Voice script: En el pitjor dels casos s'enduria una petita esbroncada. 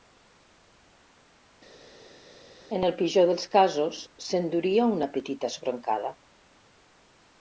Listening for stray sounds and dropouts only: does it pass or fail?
pass